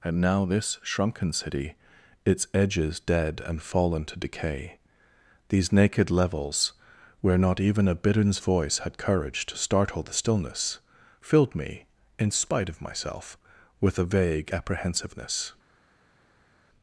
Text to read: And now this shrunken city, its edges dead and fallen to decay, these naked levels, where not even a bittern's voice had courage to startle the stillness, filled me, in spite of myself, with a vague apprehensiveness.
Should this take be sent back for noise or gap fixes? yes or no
no